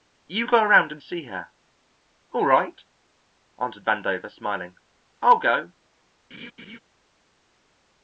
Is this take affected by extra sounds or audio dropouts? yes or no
yes